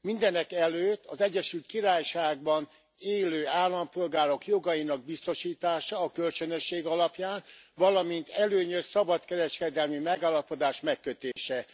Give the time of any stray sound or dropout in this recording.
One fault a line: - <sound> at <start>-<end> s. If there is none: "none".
- dropout at 11.3-11.4 s